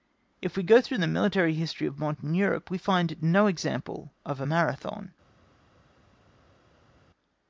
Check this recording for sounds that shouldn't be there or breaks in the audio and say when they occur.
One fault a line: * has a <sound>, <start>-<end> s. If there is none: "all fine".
all fine